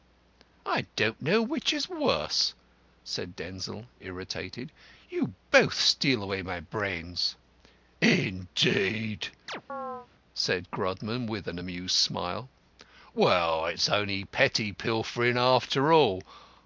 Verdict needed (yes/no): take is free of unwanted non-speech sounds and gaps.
no